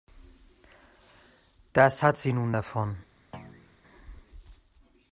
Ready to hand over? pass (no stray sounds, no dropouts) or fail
fail